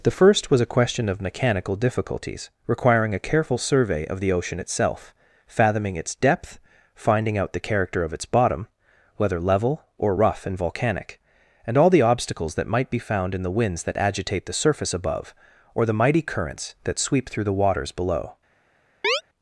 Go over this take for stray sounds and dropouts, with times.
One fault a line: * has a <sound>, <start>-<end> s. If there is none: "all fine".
* has a chirp, 19.0-19.2 s